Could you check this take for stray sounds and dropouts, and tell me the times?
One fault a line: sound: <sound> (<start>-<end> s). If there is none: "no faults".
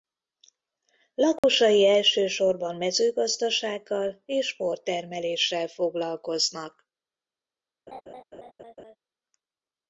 sound: dropout (1.4-1.4 s)
sound: laugh (7.9-9.0 s)